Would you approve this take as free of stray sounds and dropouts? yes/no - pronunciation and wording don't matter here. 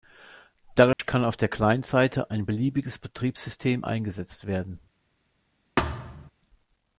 no